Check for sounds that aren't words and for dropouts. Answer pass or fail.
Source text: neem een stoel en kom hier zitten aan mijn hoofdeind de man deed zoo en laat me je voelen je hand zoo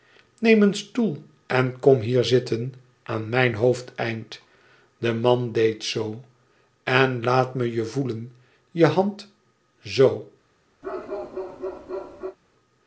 fail